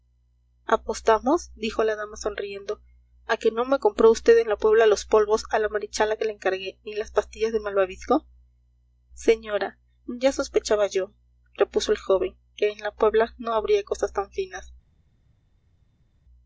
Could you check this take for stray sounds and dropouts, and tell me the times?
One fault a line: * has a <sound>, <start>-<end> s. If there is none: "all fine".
all fine